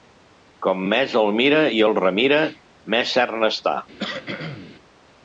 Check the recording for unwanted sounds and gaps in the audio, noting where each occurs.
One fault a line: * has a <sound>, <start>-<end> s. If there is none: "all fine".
* has a cough, 4.0-4.8 s